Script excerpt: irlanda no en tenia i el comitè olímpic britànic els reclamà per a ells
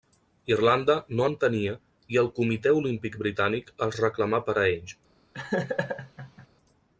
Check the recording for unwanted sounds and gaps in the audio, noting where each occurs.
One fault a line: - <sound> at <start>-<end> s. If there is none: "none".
- laugh at 5.3-6.5 s